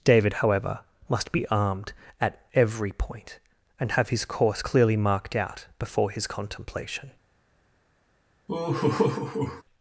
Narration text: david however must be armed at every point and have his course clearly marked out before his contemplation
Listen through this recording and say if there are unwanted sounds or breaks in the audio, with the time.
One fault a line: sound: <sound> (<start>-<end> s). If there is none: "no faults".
sound: laugh (8.5-9.6 s)